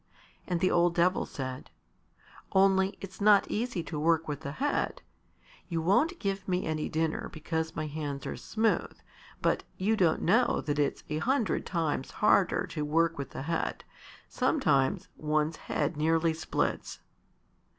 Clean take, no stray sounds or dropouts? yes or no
yes